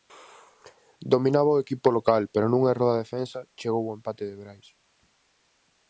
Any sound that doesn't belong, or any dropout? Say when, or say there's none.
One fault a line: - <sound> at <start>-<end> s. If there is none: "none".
none